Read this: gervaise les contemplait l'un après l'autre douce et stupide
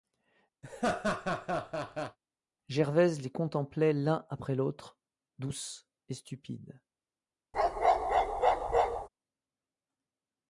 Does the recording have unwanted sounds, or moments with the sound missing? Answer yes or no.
yes